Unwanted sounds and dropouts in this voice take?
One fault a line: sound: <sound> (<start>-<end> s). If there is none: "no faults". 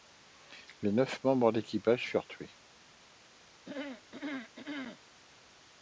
sound: throat clearing (3.6-5.0 s)